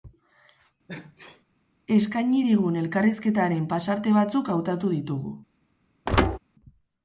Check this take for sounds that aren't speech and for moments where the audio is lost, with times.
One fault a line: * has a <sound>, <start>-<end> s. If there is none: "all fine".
* has a sneeze, 0.9-1.4 s
* has a thud, 6.1-6.4 s